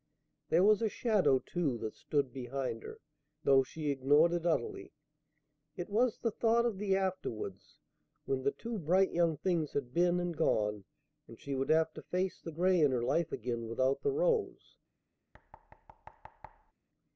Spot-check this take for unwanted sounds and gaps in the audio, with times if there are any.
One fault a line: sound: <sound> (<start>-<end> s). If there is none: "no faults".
sound: thud (15.3-16.7 s)